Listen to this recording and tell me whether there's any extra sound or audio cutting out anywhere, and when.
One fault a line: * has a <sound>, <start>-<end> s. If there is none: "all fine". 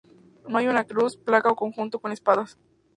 all fine